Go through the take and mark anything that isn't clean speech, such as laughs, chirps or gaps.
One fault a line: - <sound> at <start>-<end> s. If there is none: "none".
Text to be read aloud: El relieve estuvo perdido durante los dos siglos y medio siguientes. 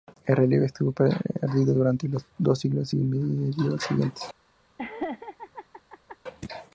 - laugh at 4.8-6.2 s